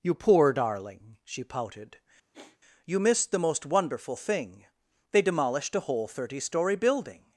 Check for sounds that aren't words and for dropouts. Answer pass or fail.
fail